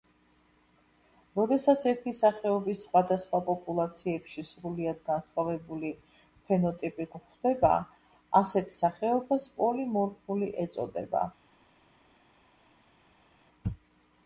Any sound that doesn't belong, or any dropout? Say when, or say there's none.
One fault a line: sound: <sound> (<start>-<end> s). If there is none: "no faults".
no faults